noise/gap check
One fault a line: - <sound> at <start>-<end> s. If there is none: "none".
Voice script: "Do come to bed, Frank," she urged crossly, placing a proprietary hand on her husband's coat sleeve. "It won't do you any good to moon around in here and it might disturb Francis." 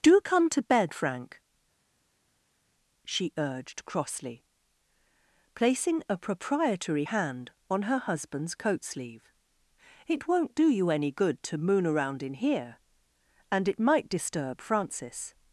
none